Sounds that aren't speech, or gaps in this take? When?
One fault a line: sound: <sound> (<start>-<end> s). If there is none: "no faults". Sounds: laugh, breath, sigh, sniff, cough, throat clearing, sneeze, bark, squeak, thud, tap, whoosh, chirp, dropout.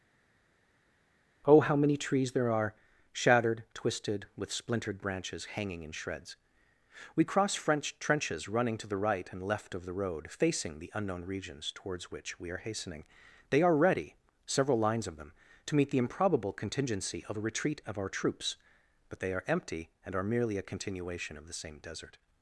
no faults